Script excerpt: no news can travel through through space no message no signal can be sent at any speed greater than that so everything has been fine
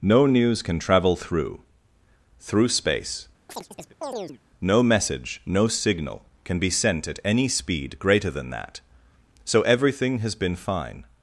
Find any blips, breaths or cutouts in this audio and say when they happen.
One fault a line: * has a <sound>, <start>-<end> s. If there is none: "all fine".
* has a chirp, 3.5-4.4 s